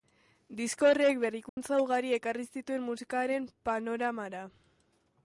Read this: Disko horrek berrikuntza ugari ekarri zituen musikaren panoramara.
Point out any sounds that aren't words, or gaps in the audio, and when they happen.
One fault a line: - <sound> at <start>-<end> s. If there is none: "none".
- dropout at 1.5-1.6 s